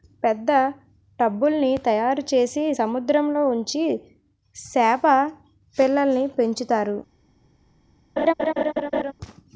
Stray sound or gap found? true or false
true